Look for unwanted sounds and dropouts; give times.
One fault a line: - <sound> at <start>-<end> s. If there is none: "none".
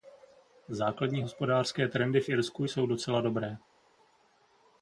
none